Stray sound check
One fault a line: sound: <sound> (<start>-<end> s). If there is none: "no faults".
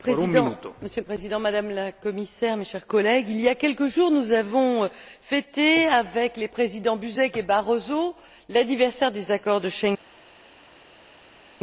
no faults